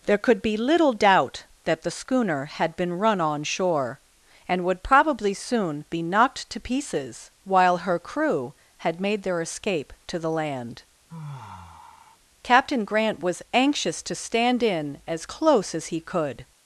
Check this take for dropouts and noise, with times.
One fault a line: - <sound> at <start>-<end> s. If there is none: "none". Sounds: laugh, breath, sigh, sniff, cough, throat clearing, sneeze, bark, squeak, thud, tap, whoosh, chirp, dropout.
- sigh at 11.1-12.2 s